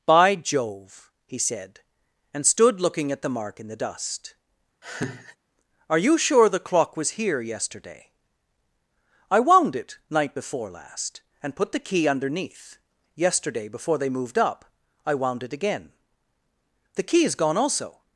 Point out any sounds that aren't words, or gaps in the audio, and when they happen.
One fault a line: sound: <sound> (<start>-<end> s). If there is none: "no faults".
sound: laugh (4.8-5.4 s)